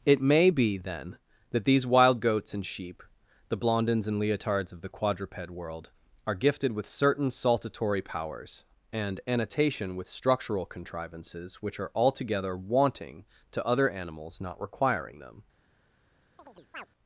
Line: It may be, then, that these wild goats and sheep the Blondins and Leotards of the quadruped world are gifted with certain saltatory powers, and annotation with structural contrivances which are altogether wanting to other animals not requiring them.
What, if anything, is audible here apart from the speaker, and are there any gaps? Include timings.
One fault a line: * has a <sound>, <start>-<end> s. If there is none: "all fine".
* has a chirp, 16.4-16.9 s